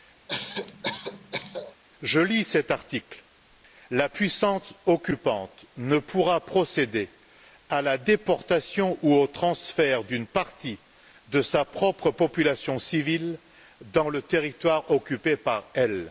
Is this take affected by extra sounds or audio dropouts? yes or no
yes